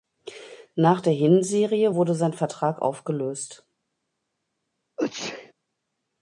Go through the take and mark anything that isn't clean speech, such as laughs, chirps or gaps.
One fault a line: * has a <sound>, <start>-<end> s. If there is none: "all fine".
* has a sneeze, 5.0-5.5 s